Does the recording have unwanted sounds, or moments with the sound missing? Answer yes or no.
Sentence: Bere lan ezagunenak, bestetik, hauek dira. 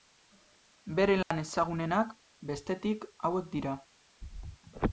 yes